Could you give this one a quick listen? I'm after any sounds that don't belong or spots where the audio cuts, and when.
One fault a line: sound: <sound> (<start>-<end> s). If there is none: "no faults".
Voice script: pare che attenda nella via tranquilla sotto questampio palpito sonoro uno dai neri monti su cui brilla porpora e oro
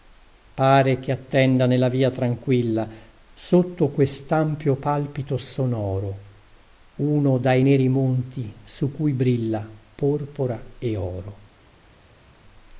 no faults